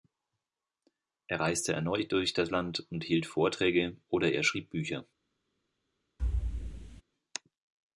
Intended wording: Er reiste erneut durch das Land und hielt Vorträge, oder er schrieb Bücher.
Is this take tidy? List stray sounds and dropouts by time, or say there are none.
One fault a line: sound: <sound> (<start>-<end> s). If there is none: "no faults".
sound: thud (6.2-7.0 s)